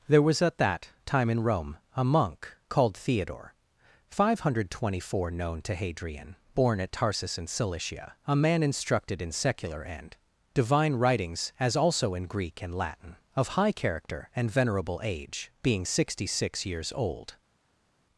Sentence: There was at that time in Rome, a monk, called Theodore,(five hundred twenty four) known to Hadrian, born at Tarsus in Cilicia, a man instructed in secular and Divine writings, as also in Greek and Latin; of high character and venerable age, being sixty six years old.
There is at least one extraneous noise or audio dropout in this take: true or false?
false